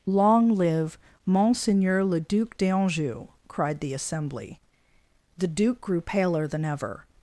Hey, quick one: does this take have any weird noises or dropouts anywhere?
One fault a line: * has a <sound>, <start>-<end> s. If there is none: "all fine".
all fine